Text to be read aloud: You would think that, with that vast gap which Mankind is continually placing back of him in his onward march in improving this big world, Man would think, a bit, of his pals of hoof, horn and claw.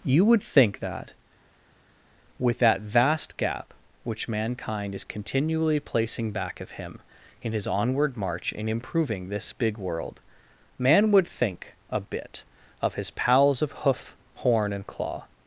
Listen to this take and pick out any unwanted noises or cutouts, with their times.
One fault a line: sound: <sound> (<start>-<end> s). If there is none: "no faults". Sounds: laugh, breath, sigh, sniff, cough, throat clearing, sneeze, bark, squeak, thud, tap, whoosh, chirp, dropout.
no faults